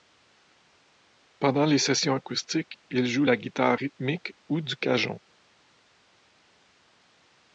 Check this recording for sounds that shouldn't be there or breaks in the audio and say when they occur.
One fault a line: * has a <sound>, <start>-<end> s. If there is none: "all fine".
all fine